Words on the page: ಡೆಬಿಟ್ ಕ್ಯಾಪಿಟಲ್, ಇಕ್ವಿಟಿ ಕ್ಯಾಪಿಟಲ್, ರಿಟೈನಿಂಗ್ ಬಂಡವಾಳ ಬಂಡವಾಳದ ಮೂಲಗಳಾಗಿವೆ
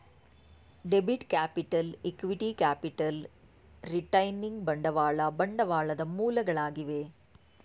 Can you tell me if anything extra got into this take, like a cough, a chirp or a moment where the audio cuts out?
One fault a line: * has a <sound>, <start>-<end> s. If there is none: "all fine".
all fine